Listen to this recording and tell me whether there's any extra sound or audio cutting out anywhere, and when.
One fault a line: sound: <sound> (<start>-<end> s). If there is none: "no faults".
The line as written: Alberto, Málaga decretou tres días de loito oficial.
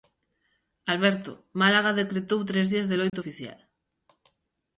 sound: dropout (3.1-3.1 s)